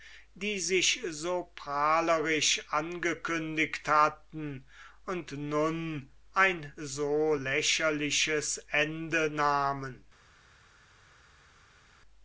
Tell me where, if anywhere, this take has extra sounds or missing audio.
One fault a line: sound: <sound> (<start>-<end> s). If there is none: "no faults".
no faults